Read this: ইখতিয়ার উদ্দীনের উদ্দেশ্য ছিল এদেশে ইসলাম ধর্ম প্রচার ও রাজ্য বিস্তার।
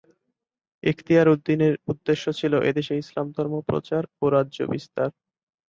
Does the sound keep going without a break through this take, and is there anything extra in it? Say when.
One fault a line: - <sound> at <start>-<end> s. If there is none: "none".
none